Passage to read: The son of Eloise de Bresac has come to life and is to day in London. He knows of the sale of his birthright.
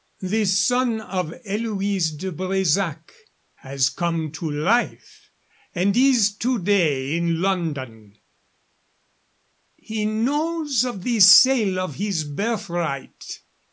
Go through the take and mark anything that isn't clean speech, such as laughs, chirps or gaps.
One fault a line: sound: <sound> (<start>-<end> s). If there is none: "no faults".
no faults